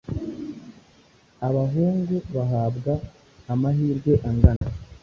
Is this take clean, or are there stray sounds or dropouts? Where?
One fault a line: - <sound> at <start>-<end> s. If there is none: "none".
- dropout at 4.6-4.6 s